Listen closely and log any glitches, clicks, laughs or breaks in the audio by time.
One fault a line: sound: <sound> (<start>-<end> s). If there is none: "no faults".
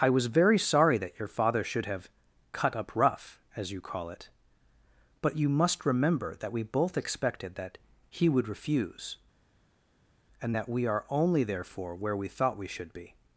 no faults